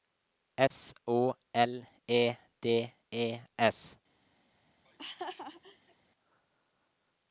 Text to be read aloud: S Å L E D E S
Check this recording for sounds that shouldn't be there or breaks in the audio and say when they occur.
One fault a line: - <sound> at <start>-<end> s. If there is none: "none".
- dropout at 0.7-0.7 s
- laugh at 4.9-6.0 s